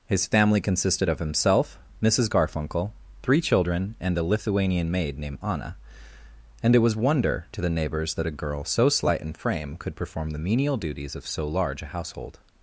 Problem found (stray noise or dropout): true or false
false